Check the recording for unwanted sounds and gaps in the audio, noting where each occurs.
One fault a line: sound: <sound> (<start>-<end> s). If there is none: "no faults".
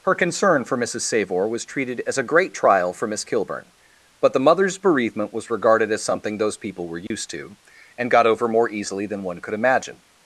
sound: dropout (7.1-7.1 s)